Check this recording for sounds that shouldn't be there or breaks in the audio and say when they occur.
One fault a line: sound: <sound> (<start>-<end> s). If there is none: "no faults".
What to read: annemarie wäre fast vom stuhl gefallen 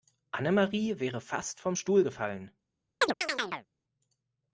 sound: chirp (3.0-3.7 s)